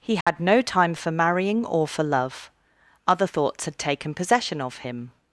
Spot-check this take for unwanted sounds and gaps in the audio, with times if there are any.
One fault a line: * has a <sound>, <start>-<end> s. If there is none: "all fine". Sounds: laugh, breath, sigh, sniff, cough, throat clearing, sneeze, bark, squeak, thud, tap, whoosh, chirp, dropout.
* has a dropout, 0.2-0.3 s